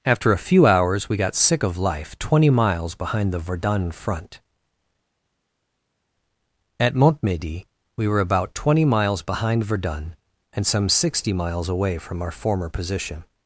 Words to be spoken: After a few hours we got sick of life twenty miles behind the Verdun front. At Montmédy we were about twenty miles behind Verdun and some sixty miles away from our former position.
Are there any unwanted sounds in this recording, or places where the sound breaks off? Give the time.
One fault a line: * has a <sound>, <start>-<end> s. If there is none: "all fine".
all fine